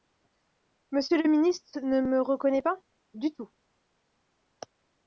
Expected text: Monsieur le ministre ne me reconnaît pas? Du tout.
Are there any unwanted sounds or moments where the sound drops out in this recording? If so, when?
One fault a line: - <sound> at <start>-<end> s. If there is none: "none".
none